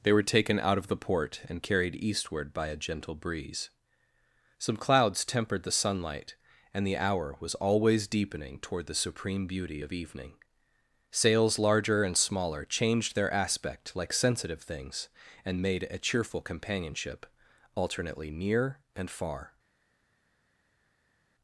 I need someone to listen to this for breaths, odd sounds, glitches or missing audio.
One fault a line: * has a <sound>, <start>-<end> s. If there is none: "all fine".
all fine